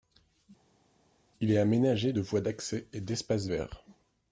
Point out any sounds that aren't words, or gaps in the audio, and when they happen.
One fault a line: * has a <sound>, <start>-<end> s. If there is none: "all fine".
all fine